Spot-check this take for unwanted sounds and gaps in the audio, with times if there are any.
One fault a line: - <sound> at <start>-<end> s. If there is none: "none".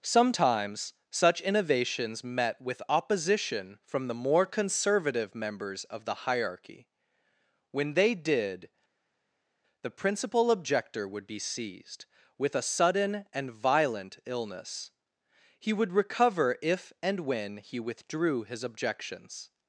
none